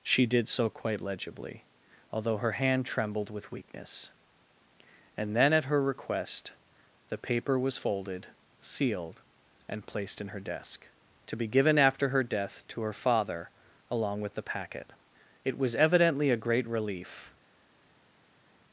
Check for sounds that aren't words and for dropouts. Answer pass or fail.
pass